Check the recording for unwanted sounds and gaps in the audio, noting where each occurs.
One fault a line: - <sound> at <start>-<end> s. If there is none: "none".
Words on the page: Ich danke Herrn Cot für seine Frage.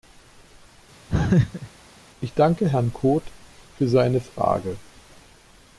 - laugh at 1.1-1.7 s